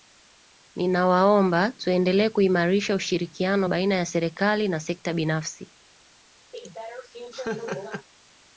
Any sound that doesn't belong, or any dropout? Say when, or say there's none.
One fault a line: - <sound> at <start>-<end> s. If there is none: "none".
- laugh at 6.5-8.1 s